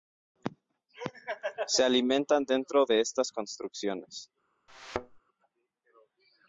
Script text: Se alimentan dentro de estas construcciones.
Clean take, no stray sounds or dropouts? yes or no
no